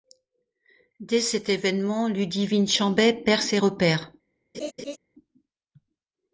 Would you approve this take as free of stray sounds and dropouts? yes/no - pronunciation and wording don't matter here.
no